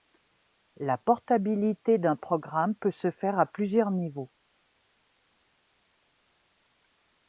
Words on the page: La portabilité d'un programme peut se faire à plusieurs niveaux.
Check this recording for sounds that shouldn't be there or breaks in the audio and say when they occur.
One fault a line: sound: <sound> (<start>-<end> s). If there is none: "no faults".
no faults